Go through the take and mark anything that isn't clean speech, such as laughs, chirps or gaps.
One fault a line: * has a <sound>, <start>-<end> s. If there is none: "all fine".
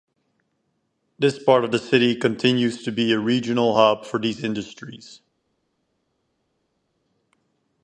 all fine